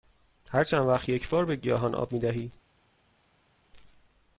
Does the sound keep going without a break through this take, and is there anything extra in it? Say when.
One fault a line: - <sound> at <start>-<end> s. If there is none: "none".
none